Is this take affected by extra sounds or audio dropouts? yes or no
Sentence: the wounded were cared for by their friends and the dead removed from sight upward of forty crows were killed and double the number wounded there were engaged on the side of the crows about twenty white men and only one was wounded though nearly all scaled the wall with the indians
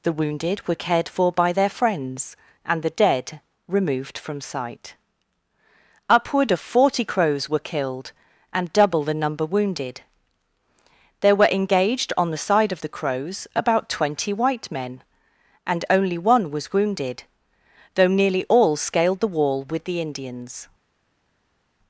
no